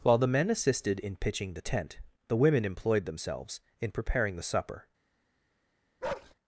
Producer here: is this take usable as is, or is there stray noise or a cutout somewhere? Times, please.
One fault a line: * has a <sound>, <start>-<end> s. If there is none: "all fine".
* has a bark, 6.0-6.3 s